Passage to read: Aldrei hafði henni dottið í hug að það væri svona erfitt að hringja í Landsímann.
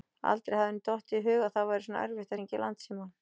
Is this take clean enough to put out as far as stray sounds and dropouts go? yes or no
yes